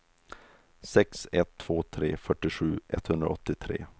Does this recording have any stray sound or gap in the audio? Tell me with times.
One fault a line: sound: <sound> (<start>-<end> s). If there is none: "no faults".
no faults